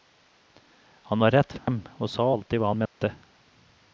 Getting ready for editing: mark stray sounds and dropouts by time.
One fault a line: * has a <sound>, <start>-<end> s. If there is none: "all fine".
* has a dropout, 1.6-1.7 s
* has a dropout, 2.9-3.0 s